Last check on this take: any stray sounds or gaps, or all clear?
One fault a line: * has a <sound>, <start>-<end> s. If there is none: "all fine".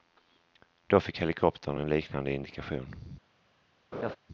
* has a laugh, 3.9-4.2 s